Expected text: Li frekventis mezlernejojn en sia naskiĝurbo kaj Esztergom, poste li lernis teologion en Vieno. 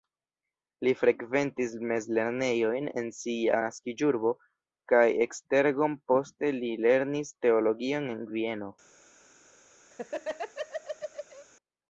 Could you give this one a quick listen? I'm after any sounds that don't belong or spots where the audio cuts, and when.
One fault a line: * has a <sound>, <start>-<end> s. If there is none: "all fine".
* has a laugh, 9.9-11.5 s